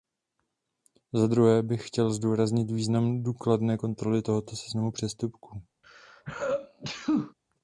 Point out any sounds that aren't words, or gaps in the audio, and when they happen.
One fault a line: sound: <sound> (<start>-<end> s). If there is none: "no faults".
sound: sneeze (5.8-7.3 s)